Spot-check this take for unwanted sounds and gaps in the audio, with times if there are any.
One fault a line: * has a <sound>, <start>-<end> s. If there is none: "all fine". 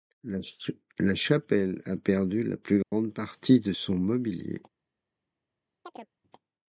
* has a dropout, 2.8-2.9 s
* has a chirp, 5.8-6.1 s